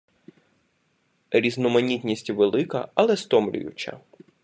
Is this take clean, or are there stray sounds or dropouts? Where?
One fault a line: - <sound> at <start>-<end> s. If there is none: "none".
none